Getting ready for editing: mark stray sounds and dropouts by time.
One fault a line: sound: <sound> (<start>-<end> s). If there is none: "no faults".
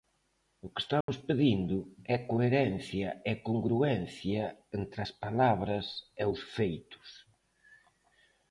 sound: dropout (1.0-1.1 s)